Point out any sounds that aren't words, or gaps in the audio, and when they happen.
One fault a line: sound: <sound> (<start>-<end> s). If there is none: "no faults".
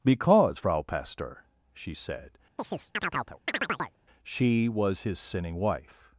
sound: chirp (2.6-4.0 s)